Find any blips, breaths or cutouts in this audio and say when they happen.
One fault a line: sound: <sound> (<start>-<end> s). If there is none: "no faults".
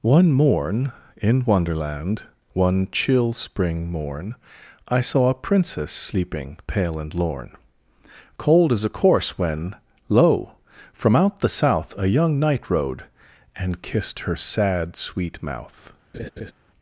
sound: laugh (16.1-16.5 s)